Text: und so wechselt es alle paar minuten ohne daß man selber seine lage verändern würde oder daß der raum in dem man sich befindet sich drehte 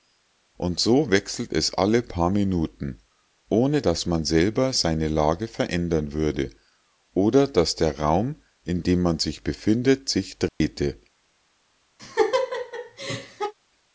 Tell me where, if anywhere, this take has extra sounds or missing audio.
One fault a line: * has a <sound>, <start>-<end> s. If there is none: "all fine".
* has a dropout, 10.5-10.6 s
* has a laugh, 12.0-13.5 s